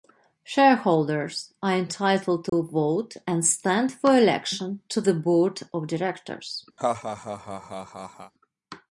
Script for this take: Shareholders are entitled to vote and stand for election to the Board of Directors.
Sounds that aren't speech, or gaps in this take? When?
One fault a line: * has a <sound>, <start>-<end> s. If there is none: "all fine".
* has a dropout, 2.5-2.5 s
* has a laugh, 6.8-8.3 s